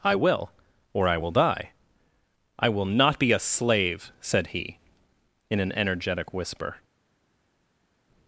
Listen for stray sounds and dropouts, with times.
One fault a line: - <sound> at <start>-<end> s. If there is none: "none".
none